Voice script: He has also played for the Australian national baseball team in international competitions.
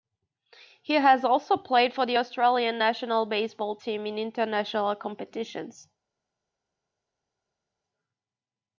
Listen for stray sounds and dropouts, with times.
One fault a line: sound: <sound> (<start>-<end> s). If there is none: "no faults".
no faults